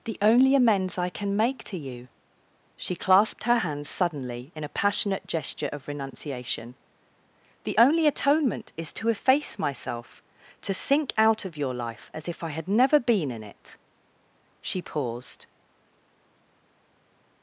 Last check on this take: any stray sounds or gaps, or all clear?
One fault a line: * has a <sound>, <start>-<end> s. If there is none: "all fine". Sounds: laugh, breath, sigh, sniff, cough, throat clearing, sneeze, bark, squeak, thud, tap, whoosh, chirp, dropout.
all fine